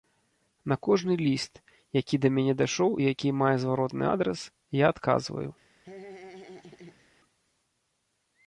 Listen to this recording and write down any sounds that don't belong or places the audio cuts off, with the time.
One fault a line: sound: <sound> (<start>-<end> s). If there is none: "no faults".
sound: laugh (5.8-7.1 s)